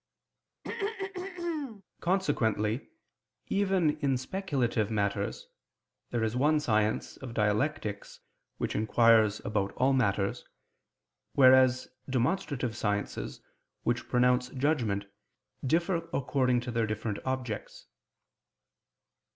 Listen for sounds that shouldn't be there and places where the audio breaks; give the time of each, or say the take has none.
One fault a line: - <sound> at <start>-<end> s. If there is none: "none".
- throat clearing at 0.6-1.8 s